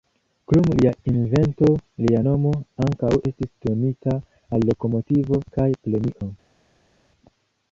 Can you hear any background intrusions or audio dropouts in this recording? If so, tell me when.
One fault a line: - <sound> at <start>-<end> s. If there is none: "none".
none